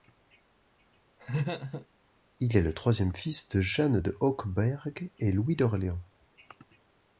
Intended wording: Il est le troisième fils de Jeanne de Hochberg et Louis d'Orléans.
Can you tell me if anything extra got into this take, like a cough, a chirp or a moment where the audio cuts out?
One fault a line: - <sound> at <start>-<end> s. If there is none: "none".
- laugh at 1.2-1.9 s